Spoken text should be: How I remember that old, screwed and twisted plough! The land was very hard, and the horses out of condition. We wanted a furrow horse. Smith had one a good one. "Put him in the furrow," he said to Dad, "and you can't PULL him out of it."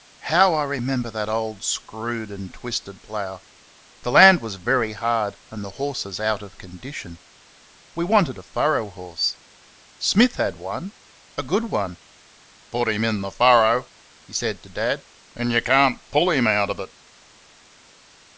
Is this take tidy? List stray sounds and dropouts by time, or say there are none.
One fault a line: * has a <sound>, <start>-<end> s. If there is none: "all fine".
all fine